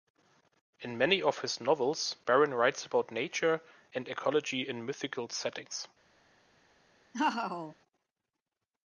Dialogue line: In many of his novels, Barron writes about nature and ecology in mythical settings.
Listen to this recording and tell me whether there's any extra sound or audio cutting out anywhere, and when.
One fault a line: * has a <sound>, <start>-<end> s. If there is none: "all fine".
* has a laugh, 7.1-7.8 s